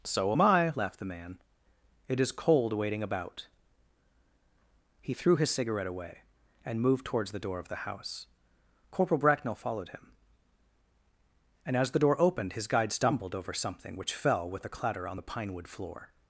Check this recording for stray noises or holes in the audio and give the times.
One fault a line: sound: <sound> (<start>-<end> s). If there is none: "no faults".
no faults